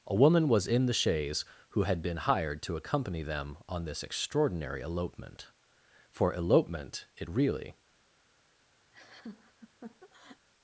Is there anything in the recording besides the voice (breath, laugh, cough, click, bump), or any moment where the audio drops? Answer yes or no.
yes